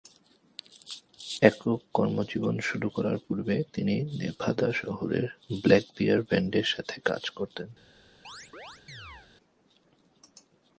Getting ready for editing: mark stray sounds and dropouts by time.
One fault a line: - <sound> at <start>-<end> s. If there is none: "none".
- chirp at 8.2-9.3 s